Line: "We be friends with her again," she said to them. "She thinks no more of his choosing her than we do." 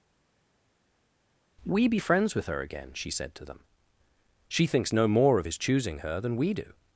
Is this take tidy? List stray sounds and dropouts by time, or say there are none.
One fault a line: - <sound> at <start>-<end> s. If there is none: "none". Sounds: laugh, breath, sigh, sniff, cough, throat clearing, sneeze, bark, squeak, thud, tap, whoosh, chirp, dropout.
none